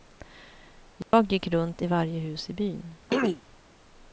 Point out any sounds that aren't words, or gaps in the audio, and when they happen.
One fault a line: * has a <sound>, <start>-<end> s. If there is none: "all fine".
* has a dropout, 1.0-1.1 s
* has a throat clearing, 3.1-3.4 s